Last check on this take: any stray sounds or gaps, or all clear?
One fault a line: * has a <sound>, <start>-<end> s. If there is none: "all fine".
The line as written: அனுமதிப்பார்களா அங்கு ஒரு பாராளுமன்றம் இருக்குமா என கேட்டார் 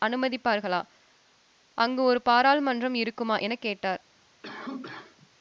* has a cough, 4.4-5.3 s